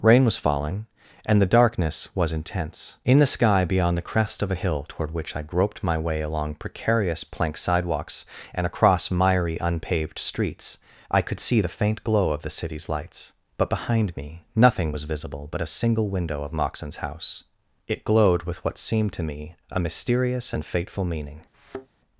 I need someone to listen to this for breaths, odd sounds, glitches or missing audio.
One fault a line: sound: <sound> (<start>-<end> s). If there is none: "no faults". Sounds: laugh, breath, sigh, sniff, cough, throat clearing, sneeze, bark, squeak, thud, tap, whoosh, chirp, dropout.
sound: thud (21.5-21.9 s)